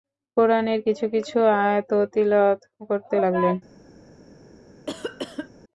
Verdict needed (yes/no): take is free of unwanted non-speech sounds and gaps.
no